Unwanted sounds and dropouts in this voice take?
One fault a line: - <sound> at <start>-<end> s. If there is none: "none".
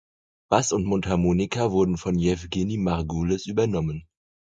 none